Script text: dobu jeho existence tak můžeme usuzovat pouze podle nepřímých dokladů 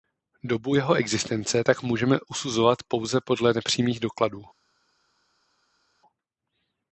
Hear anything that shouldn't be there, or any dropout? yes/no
no